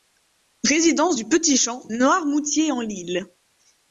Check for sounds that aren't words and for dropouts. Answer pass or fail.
pass